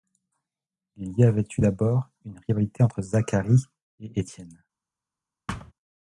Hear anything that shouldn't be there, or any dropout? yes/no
yes